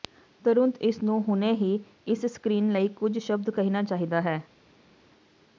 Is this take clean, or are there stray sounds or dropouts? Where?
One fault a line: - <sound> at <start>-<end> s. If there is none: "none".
none